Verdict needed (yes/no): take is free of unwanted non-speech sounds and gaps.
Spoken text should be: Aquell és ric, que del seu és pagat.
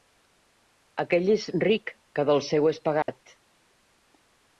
no